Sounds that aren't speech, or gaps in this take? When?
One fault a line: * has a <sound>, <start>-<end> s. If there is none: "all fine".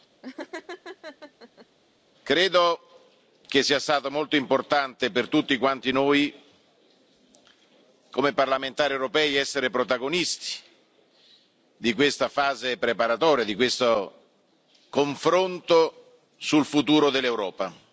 * has a laugh, 0.2-1.7 s